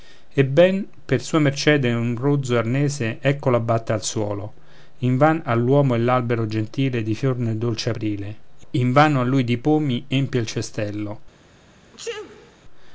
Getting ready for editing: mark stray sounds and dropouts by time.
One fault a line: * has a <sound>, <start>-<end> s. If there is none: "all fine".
* has a sneeze, 11.8-12.6 s